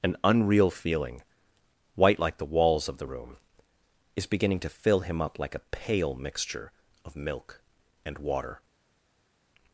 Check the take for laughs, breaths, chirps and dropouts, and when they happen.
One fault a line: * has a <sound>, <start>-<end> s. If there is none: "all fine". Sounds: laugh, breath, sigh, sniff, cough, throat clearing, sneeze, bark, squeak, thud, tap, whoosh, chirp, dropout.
all fine